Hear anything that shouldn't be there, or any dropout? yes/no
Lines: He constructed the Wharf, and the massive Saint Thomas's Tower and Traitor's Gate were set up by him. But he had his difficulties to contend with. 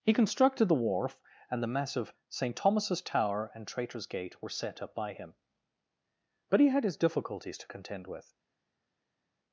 no